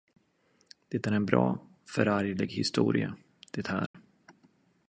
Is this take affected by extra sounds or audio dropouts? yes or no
yes